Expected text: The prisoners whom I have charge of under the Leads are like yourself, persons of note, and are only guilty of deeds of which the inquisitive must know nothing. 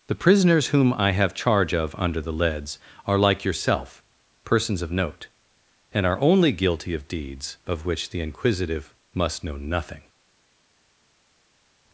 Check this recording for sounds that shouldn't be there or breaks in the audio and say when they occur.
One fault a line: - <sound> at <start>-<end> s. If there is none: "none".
none